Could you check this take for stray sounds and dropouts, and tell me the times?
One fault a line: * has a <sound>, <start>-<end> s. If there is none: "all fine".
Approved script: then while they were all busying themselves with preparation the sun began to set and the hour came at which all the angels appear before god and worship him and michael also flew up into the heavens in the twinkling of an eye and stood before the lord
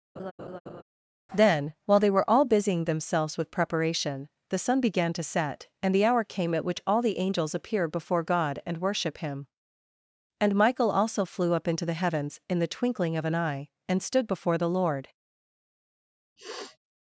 * has a laugh, 0.2-0.8 s
* has a sniff, 16.4-16.8 s